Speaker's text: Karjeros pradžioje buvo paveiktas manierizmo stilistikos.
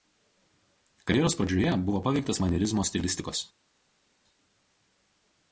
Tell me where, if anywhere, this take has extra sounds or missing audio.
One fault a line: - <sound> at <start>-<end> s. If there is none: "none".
none